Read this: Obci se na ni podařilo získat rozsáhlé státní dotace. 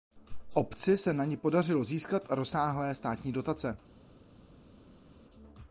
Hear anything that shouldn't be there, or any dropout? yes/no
no